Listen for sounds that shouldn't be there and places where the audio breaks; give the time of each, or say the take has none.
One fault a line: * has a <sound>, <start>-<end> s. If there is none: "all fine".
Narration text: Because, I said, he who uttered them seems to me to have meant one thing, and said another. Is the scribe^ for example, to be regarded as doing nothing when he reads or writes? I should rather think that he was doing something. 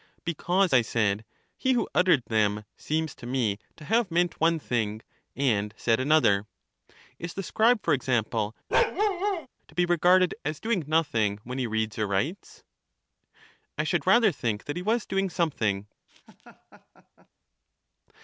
* has a bark, 8.7-9.5 s
* has a laugh, 16.1-17.3 s